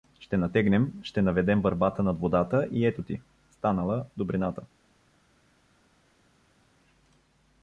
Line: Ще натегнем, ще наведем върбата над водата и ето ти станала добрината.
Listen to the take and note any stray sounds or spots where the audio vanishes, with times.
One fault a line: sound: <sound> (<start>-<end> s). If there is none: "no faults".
no faults